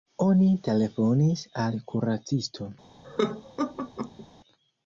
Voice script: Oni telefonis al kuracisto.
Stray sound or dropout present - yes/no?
yes